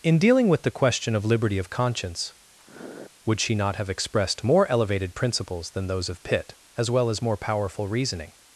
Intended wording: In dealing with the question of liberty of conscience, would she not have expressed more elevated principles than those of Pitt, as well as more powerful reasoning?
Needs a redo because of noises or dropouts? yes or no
yes